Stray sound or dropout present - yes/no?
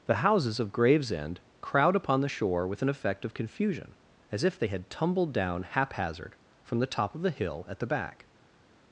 no